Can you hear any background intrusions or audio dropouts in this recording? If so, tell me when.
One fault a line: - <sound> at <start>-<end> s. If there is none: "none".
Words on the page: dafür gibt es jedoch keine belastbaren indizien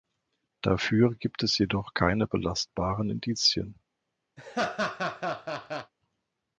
- laugh at 4.4-5.9 s